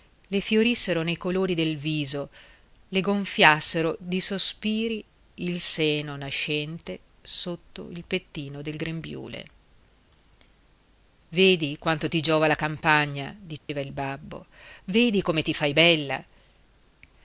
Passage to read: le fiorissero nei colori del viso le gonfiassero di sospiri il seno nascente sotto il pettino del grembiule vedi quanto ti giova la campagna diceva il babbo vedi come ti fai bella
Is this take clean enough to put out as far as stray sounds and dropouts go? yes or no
no